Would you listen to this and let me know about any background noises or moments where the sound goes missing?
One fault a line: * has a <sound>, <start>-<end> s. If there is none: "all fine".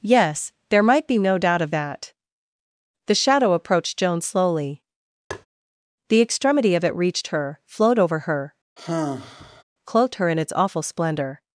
* has a tap, 5.3-5.5 s
* has a sigh, 8.8-9.6 s